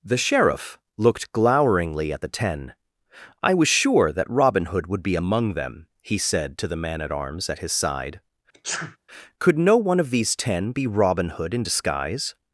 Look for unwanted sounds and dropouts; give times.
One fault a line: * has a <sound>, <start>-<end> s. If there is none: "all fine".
* has a sneeze, 8.5-9.0 s